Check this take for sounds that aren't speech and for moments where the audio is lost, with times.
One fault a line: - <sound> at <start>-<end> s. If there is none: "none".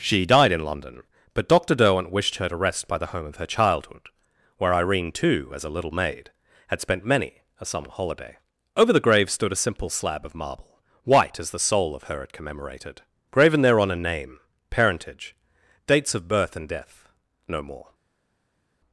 none